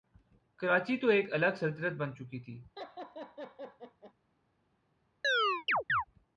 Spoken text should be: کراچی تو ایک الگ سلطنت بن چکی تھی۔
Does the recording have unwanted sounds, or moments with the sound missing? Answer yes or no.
yes